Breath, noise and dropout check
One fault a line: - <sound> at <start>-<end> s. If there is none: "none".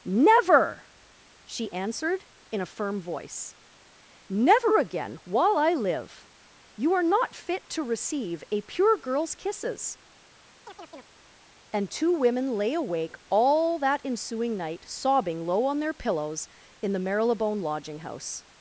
- chirp at 10.7-11.2 s